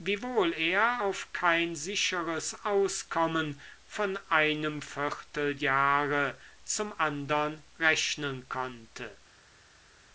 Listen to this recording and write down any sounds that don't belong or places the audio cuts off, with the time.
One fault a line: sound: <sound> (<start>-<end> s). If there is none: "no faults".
no faults